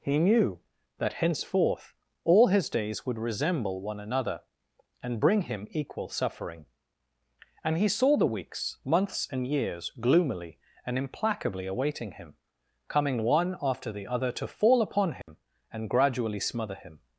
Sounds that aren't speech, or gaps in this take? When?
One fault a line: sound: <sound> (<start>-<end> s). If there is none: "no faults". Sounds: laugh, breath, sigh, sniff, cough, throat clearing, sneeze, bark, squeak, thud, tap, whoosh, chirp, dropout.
sound: dropout (15.2-15.3 s)